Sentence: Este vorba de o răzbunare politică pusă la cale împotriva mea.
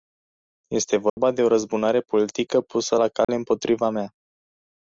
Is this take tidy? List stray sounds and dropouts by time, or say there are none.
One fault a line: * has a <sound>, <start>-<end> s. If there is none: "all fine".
* has a dropout, 1.1-1.2 s
* has a dropout, 3.2-3.3 s